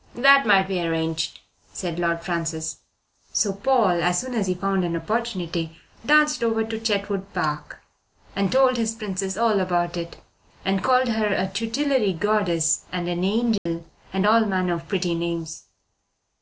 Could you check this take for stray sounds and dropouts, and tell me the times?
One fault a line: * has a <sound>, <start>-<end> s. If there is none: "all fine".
* has a dropout, 13.6-13.7 s